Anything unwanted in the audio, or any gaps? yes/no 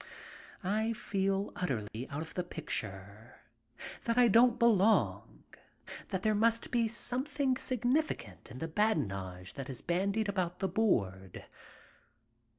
yes